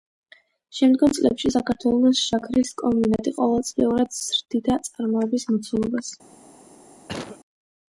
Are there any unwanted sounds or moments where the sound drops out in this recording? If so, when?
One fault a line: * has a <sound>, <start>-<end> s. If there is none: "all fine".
* has a cough, 7.1-7.4 s